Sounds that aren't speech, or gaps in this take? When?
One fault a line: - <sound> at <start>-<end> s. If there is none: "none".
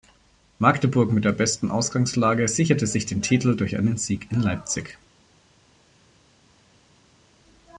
none